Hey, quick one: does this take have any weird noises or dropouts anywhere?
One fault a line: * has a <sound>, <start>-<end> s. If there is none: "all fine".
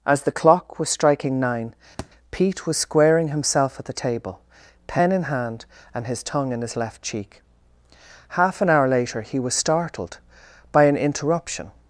* has a thud, 2.0-2.1 s